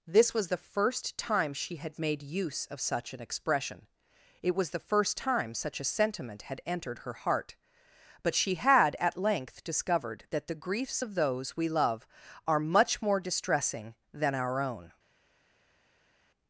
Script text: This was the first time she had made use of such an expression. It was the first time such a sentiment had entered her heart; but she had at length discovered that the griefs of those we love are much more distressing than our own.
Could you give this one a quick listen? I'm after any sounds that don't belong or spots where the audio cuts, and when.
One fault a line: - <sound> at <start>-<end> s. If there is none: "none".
none